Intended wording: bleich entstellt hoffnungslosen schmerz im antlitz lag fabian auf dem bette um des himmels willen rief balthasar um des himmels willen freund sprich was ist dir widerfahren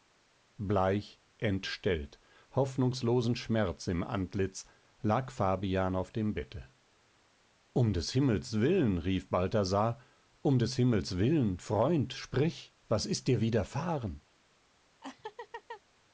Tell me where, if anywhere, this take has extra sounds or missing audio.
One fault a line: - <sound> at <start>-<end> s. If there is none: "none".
- laugh at 15.0-15.8 s